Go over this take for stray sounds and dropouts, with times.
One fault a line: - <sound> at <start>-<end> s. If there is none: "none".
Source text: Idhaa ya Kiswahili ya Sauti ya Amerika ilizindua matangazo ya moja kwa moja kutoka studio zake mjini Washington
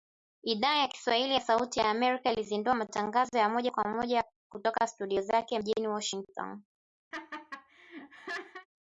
- laugh at 7.1-8.7 s